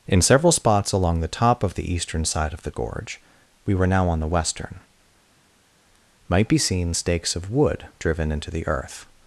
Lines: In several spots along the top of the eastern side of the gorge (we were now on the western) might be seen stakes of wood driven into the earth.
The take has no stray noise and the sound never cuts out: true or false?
true